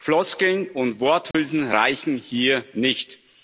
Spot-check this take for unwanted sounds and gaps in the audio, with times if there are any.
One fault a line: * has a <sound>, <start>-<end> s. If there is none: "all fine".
* has a dropout, 1.3-1.3 s